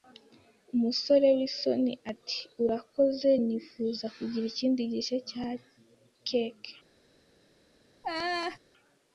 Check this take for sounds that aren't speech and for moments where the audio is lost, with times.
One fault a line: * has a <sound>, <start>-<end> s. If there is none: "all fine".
* has a laugh, 8.0-8.6 s